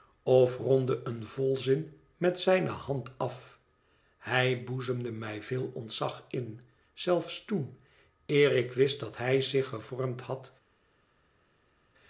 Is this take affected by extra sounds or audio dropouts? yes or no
no